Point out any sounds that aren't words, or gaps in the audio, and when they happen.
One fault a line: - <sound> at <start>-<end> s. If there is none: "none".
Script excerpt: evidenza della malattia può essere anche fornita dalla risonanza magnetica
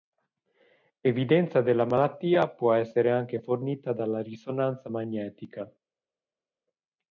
none